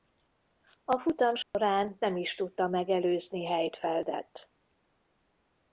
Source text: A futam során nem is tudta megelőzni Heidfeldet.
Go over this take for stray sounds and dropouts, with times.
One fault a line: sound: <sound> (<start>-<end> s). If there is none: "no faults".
sound: dropout (1.4-1.5 s)